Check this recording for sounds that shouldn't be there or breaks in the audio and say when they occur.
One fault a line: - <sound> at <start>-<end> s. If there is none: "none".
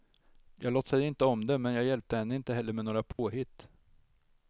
- dropout at 3.1-3.2 s